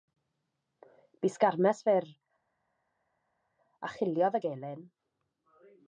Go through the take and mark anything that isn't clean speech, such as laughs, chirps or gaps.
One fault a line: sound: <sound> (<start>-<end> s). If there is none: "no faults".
no faults